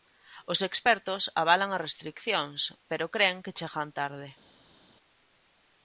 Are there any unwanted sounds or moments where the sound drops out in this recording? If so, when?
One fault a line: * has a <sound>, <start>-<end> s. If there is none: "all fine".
all fine